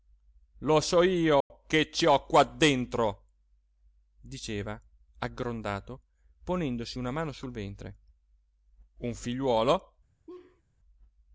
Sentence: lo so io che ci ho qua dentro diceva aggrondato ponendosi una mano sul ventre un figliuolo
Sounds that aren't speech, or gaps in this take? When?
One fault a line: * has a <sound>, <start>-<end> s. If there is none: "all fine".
* has a dropout, 1.4-1.5 s
* has a laugh, 10.3-10.6 s